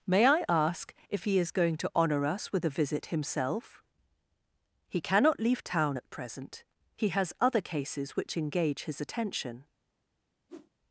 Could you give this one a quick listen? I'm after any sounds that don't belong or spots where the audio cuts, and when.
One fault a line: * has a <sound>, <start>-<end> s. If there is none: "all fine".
* has a whoosh, 10.5-10.7 s